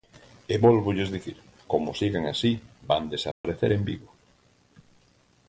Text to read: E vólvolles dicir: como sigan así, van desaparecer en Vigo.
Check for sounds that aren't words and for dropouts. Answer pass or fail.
fail